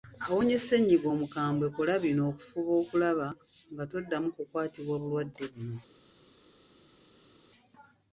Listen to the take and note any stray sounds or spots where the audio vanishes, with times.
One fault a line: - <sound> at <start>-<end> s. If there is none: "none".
none